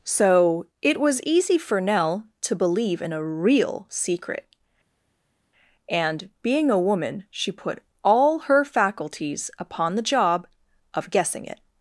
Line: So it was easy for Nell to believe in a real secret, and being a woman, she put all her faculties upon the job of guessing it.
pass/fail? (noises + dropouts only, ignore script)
pass